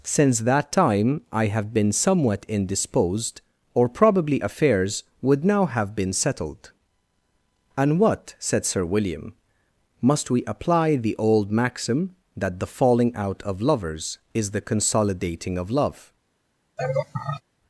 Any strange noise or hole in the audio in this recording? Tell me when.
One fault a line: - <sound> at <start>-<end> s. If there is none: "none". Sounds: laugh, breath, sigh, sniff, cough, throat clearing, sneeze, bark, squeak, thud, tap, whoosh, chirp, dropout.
- laugh at 16.8-17.4 s